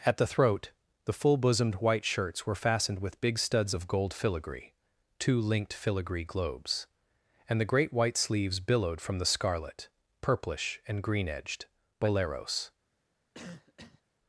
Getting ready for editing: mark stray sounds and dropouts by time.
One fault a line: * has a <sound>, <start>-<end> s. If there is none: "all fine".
* has a cough, 13.3-14.0 s